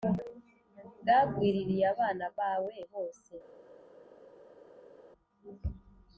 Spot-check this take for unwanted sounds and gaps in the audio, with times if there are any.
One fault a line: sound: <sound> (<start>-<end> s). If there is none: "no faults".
no faults